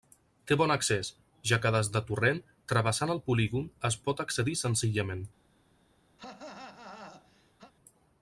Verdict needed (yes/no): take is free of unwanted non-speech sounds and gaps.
no